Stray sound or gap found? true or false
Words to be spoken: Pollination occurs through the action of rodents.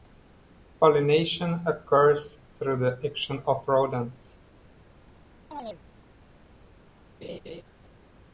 true